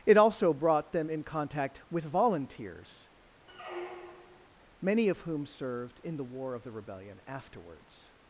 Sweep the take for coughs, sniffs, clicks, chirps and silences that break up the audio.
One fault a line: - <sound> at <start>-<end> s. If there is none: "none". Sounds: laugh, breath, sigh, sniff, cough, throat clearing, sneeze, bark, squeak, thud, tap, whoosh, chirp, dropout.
- squeak at 3.5-4.5 s